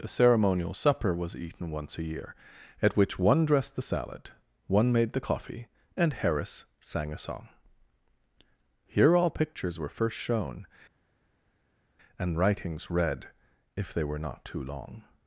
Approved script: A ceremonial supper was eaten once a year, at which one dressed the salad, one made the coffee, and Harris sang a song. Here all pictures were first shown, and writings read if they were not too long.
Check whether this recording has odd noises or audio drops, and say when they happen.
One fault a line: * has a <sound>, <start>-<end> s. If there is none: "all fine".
all fine